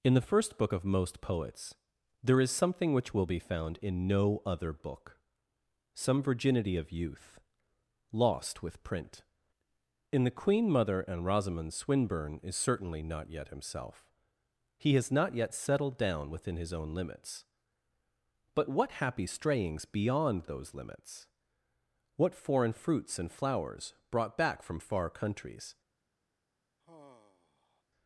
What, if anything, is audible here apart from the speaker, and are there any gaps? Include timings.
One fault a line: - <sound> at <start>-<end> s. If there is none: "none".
- sigh at 26.8-27.8 s